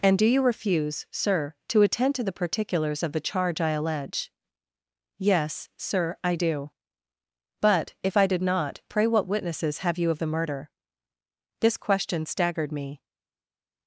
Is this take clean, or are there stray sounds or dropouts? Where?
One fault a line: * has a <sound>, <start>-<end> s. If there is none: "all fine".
all fine